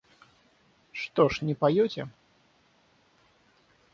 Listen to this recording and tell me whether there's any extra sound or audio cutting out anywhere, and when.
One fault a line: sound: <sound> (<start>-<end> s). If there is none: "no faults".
no faults